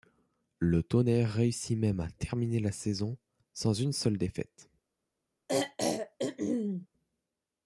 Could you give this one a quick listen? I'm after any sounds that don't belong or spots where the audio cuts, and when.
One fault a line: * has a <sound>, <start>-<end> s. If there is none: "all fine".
* has a throat clearing, 5.5-6.9 s